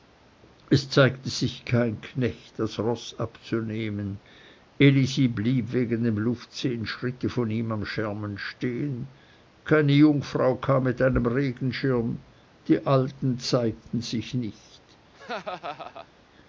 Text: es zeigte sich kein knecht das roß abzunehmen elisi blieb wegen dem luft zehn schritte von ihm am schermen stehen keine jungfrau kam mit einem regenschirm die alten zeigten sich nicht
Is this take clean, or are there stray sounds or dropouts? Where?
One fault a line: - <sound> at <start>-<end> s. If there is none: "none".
- laugh at 15.1-16.1 s